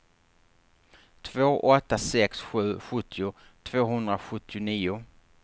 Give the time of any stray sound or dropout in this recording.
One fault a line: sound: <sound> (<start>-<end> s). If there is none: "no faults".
no faults